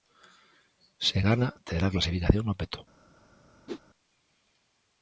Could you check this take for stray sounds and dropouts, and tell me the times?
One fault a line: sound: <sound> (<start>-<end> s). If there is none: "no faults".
sound: whoosh (3.7-3.8 s)